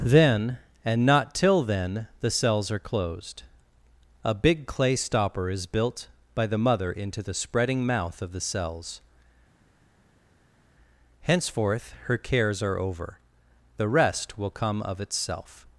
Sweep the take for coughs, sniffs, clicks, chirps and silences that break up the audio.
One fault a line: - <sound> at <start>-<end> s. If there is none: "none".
none